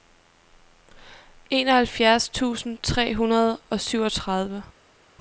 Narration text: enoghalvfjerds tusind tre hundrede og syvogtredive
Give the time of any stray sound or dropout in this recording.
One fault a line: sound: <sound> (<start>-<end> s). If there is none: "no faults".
no faults